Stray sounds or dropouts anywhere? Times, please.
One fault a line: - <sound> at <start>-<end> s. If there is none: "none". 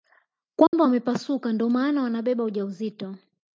- dropout at 0.7-0.7 s